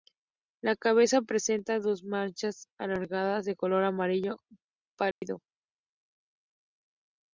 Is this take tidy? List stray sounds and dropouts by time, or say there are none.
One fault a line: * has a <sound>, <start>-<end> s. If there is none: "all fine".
* has a dropout, 5.1-5.2 s